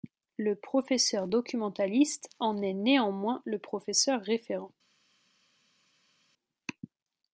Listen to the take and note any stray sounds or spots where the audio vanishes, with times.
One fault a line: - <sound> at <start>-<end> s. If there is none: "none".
none